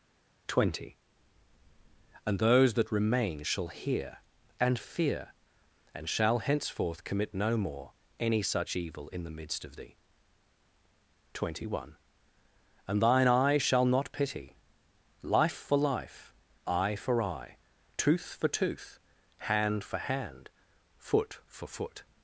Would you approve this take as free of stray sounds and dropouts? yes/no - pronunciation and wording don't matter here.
yes